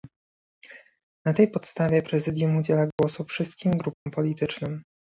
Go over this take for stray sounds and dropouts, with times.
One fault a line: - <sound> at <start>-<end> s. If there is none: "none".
- dropout at 2.9-3.0 s
- dropout at 3.9-4.1 s